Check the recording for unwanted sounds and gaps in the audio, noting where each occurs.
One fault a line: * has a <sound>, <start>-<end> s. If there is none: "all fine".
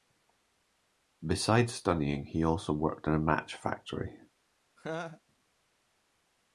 * has a laugh, 4.8-5.2 s